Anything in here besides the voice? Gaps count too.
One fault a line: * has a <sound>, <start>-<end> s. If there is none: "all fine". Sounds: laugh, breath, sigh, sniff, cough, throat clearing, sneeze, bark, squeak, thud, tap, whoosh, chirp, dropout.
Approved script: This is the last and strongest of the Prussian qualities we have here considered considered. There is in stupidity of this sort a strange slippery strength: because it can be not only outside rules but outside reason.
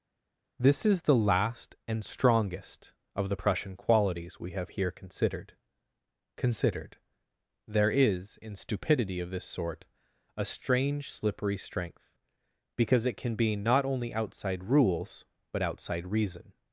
all fine